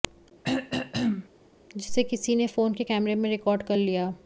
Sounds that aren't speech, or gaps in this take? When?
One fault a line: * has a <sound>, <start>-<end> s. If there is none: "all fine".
* has a throat clearing, 0.4-1.3 s